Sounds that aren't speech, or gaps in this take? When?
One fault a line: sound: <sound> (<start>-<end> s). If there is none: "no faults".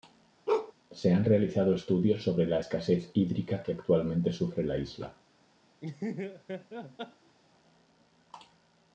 sound: bark (0.5-0.7 s)
sound: laugh (5.8-7.4 s)